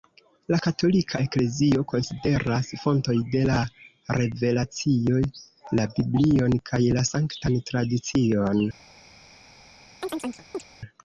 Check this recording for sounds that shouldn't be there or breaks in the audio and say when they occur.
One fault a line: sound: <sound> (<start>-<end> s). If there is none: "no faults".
sound: chirp (10.0-10.6 s)